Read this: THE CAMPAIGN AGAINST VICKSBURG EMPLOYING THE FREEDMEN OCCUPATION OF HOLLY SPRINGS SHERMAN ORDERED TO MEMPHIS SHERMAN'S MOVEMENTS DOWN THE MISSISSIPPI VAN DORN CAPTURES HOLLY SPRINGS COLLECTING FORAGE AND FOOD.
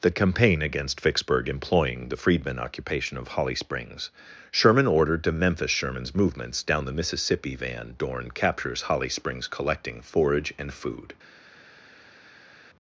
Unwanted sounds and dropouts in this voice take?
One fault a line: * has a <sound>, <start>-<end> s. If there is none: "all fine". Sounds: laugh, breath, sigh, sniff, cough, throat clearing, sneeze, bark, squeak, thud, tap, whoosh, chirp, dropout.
all fine